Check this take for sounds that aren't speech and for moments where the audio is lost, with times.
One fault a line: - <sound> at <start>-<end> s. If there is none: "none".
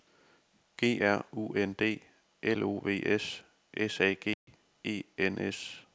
- dropout at 4.3-4.5 s